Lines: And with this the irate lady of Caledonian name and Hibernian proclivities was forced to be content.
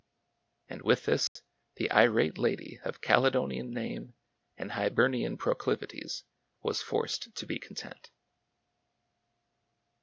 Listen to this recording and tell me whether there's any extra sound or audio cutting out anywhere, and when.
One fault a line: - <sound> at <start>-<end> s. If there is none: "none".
- dropout at 1.3-1.4 s